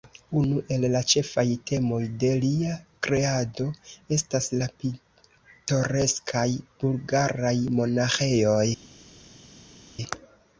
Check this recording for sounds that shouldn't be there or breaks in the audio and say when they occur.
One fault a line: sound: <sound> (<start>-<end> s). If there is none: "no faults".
no faults